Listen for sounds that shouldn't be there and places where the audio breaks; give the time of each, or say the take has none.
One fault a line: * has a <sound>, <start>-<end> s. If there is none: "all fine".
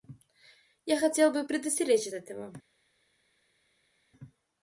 all fine